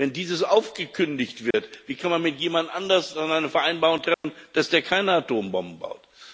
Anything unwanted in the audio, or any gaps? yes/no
yes